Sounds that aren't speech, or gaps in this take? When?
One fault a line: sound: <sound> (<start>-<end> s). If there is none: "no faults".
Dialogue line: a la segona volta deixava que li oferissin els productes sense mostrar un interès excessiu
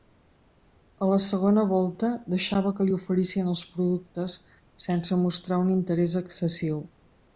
no faults